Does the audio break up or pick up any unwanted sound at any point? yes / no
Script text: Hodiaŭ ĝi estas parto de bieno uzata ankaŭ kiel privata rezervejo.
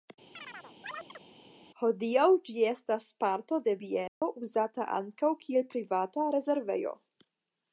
yes